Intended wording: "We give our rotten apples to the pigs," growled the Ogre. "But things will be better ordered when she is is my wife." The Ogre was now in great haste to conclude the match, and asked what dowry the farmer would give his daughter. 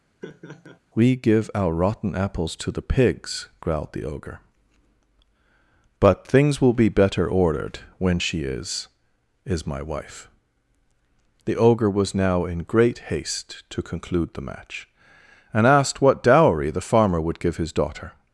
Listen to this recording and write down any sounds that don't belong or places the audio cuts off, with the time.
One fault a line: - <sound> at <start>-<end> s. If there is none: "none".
- laugh at 0.2-0.8 s